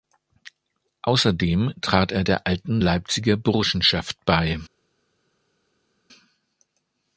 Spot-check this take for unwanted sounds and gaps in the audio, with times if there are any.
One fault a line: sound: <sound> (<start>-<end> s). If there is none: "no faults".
no faults